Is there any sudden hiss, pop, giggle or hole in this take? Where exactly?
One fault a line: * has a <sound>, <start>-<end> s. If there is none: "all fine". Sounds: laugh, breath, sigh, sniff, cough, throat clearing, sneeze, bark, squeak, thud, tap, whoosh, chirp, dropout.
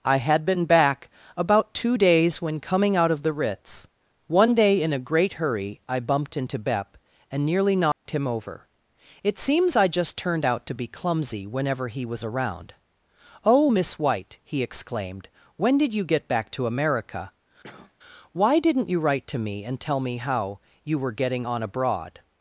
* has a dropout, 7.9-8.1 s
* has a cough, 17.6-17.9 s